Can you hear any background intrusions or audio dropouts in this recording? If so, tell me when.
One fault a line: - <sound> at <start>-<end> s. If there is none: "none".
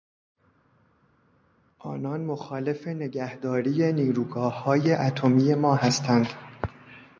none